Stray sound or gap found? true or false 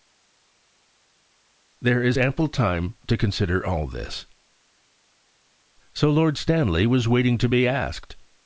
false